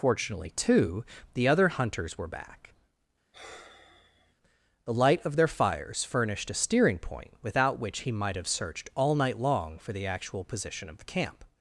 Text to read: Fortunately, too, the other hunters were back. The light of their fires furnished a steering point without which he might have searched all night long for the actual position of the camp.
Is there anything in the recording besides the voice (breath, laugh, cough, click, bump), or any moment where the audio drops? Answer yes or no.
yes